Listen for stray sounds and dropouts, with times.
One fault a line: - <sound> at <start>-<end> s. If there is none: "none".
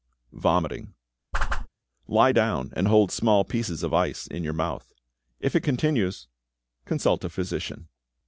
- whoosh at 1.3-1.7 s